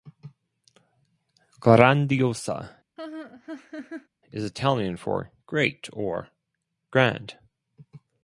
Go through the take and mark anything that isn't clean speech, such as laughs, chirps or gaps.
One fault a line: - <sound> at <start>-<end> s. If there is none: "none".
- laugh at 3.0-4.1 s